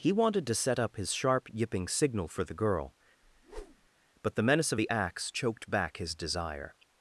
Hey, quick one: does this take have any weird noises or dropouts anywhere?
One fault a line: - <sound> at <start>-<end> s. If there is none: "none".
- whoosh at 3.2-3.9 s